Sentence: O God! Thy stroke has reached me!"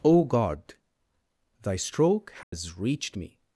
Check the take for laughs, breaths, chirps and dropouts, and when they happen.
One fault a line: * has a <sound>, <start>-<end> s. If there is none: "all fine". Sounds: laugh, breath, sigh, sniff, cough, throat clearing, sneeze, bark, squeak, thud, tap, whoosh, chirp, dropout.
* has a dropout, 2.4-2.5 s